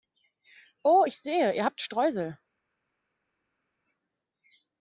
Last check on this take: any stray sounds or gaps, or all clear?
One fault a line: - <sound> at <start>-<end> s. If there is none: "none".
none